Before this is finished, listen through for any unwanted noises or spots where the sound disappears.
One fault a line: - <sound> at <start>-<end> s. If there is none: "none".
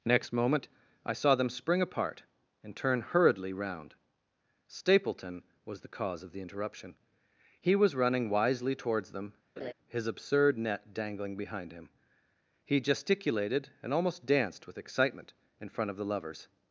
- laugh at 9.6-9.7 s